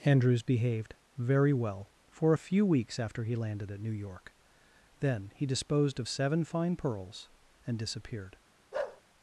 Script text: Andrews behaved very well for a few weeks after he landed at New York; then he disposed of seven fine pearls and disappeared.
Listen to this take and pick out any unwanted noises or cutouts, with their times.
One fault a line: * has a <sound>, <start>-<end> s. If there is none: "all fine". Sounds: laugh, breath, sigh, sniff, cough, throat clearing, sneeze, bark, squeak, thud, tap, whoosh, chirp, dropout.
* has a bark, 8.7-9.0 s